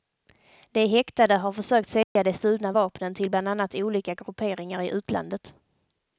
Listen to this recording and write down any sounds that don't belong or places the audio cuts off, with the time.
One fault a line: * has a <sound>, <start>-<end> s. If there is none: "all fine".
* has a dropout, 2.0-2.2 s